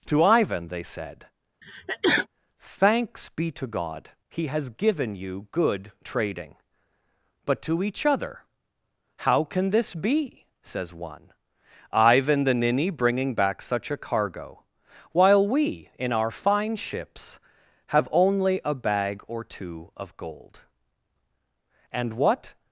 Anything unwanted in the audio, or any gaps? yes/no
yes